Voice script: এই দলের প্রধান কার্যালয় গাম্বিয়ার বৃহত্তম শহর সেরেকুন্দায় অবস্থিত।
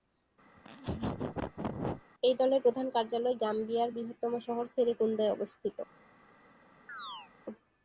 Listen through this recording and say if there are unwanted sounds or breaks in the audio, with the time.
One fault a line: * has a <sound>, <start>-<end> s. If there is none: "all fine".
* has a laugh, 0.6-2.0 s
* has a chirp, 6.9-7.3 s